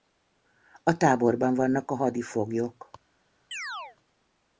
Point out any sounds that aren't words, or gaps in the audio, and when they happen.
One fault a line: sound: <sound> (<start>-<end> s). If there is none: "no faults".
sound: chirp (3.5-4.0 s)